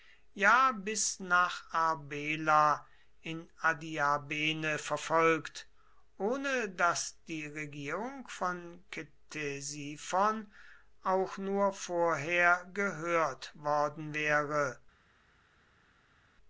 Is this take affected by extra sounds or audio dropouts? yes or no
no